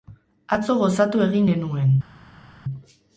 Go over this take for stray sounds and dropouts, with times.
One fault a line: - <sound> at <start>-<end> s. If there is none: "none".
none